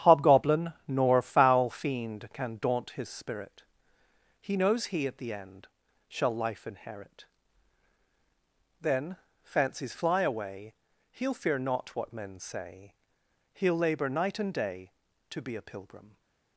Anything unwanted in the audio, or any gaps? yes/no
no